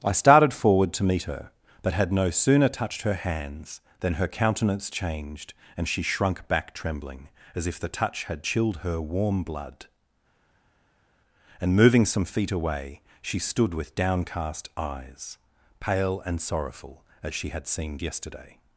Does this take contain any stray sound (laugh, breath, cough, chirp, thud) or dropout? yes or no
no